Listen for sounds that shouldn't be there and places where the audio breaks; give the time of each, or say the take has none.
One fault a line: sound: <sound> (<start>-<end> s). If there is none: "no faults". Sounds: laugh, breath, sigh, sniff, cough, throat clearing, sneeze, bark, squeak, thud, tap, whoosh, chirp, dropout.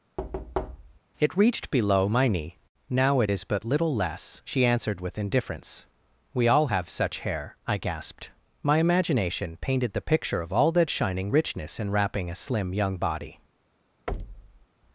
sound: thud (0.2-1.0 s)
sound: thud (14.1-14.7 s)